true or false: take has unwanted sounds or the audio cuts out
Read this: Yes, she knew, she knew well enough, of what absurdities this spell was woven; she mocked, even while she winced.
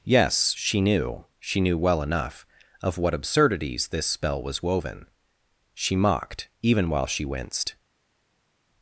false